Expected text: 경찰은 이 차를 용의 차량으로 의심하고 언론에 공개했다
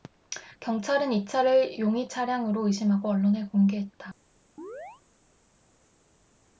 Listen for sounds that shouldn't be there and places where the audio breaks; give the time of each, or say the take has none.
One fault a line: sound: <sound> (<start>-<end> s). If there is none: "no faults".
sound: chirp (4.6-5.0 s)